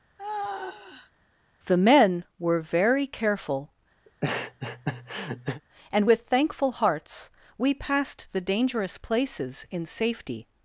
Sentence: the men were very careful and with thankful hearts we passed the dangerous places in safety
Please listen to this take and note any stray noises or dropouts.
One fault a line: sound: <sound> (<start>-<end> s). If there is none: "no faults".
sound: sigh (0.2-1.1 s)
sound: laugh (4.1-5.6 s)